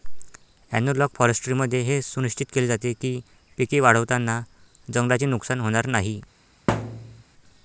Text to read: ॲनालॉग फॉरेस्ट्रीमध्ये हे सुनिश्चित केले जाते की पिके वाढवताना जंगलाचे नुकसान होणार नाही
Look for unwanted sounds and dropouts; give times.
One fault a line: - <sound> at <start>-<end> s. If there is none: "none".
- thud at 6.7-7.2 s